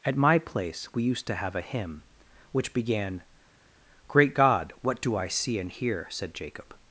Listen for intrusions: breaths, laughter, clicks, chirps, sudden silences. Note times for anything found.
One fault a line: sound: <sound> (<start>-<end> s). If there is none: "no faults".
no faults